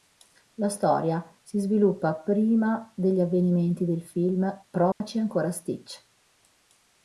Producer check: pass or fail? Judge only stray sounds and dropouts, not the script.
fail